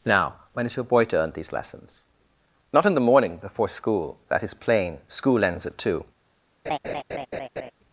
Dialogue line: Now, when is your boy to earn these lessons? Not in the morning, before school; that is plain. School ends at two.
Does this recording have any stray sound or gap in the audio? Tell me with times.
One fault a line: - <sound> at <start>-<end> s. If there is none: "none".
- laugh at 6.7-7.7 s